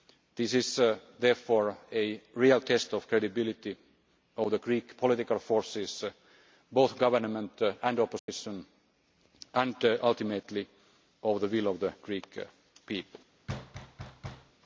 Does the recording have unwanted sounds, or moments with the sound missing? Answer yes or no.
yes